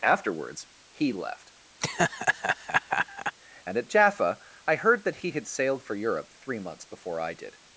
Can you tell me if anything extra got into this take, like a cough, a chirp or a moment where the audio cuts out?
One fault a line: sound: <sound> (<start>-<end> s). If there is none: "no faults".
sound: laugh (1.8-3.4 s)